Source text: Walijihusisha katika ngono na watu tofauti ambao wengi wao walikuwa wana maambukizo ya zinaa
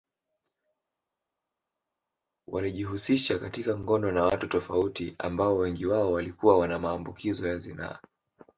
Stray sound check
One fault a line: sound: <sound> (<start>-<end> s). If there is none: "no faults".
no faults